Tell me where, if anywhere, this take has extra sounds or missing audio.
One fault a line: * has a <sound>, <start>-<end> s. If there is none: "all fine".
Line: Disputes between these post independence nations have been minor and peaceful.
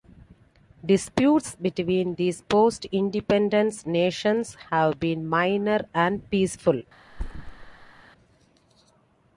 * has a thud, 7.1-8.0 s